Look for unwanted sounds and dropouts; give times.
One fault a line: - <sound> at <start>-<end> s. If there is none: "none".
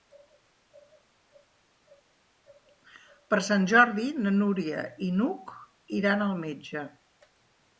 none